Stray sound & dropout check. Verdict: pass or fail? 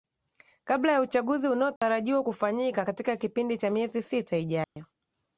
fail